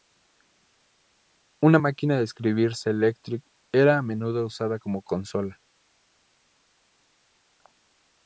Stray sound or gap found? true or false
false